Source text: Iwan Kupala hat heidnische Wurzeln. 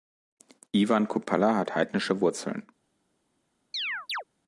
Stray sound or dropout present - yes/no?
yes